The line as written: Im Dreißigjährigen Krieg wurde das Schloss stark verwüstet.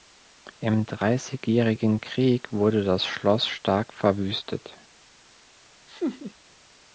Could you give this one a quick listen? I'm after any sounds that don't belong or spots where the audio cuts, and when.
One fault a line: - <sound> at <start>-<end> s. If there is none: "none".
- laugh at 5.9-6.3 s